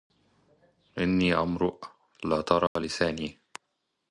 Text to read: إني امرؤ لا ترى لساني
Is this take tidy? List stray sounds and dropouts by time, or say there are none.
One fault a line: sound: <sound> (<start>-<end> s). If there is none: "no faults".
sound: dropout (2.7-2.8 s)